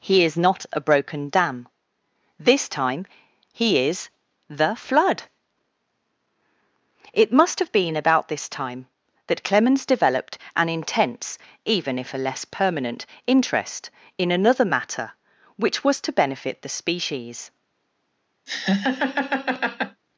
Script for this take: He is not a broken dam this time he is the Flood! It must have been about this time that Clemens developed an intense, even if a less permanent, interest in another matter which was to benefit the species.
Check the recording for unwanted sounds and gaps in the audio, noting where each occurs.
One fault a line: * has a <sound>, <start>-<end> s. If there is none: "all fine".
* has a laugh, 18.5-20.0 s